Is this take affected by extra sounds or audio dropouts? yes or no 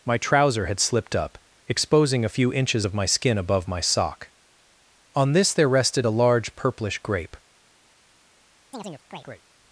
yes